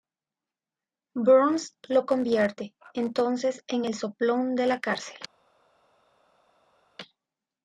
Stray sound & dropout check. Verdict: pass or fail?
pass